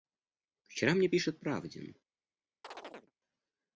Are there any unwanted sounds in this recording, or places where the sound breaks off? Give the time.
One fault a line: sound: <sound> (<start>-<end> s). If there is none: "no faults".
sound: chirp (2.6-3.1 s)